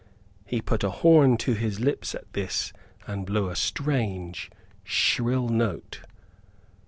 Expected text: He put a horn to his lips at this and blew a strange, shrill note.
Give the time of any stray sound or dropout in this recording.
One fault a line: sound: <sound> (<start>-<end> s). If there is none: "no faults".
no faults